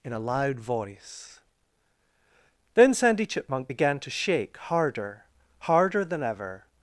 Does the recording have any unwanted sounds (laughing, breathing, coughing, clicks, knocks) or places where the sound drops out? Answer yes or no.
no